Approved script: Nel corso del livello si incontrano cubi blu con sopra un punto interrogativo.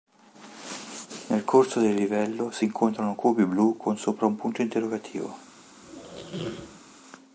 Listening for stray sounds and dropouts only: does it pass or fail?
fail